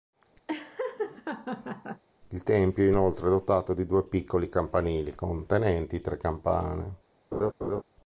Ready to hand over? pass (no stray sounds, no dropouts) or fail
fail